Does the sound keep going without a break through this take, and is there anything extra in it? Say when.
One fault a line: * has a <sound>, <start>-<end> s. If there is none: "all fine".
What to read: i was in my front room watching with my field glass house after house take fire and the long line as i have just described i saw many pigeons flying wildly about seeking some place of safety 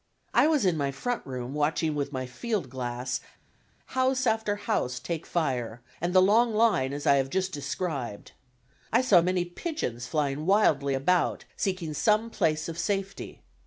all fine